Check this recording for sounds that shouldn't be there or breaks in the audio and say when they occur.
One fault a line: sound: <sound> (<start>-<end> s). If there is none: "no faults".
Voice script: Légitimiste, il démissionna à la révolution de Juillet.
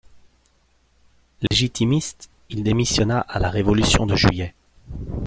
sound: dropout (1.5-1.5 s)